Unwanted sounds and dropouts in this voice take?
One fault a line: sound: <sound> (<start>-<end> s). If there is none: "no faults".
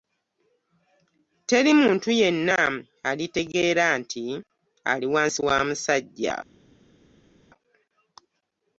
no faults